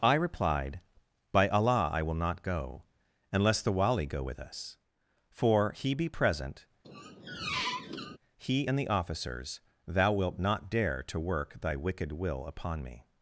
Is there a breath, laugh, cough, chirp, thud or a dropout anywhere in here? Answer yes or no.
yes